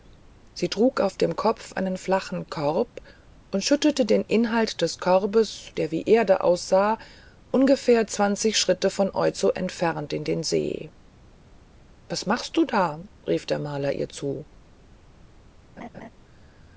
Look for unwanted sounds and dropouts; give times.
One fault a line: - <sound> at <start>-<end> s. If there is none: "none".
- laugh at 15.8-16.1 s